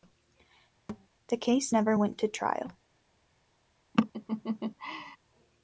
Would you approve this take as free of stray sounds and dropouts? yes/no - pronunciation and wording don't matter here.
no